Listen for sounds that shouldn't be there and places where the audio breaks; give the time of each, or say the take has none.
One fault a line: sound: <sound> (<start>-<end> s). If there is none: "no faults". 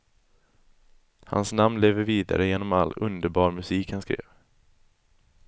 no faults